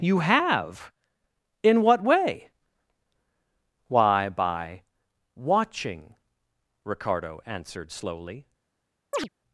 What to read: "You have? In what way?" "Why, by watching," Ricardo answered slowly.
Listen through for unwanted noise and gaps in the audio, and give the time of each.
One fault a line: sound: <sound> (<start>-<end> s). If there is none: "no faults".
sound: chirp (9.1-9.3 s)